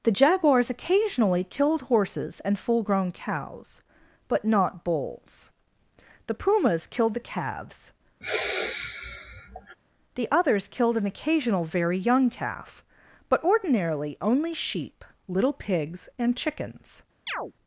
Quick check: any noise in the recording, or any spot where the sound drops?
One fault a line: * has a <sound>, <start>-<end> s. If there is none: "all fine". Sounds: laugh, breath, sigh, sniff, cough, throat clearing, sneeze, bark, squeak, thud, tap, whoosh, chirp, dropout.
* has a sigh, 8.2-9.8 s
* has a chirp, 17.3-17.5 s